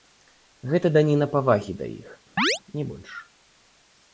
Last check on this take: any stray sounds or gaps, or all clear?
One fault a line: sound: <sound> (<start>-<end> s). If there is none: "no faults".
sound: chirp (2.4-2.6 s)